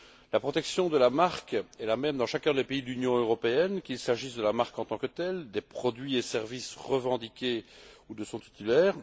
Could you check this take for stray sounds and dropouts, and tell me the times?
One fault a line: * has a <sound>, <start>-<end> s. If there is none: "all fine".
all fine